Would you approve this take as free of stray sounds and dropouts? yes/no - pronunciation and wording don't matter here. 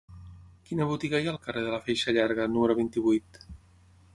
yes